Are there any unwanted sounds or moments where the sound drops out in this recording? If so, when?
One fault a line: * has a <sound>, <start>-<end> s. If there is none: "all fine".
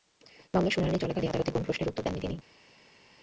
all fine